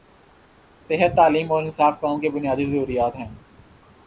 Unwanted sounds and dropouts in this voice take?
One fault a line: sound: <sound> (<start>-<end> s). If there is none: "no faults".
no faults